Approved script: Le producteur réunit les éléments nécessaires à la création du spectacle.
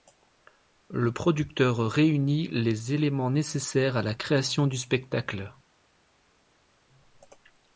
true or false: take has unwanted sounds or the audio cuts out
false